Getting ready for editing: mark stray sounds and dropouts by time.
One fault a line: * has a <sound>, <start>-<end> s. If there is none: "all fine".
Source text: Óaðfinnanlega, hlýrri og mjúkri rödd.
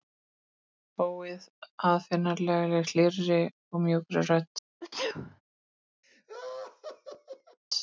* has a sneeze, 4.8-5.4 s
* has a laugh, 6.0-7.6 s